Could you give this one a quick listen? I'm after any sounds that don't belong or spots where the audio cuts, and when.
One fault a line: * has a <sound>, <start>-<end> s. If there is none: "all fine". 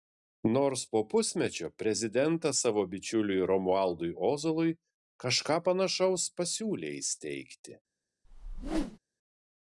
* has a whoosh, 8.2-9.0 s